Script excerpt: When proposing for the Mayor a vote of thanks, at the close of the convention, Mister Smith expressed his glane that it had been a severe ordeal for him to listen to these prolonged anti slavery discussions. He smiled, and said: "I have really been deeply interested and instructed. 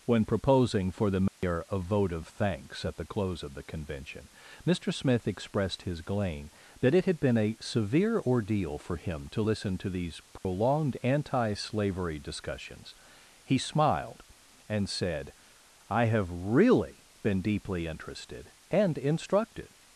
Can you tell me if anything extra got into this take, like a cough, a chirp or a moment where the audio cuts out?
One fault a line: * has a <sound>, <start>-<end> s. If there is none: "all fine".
* has a dropout, 1.3-1.4 s
* has a dropout, 10.4-10.4 s